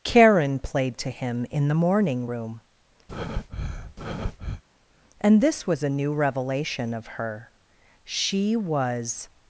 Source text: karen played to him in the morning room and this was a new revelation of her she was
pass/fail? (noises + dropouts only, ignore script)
fail